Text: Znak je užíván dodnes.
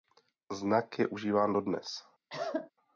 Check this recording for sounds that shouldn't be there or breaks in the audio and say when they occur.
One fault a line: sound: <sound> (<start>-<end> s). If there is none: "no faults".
sound: cough (2.3-2.7 s)